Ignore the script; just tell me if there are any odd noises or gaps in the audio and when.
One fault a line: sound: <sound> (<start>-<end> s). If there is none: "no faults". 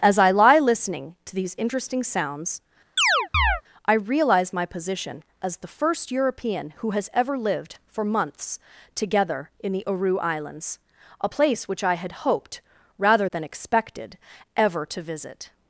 sound: chirp (3.0-3.6 s)